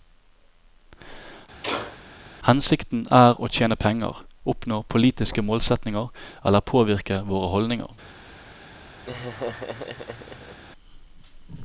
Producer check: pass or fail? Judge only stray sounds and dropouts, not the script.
fail